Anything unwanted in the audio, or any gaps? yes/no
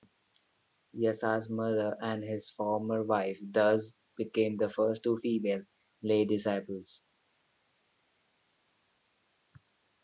no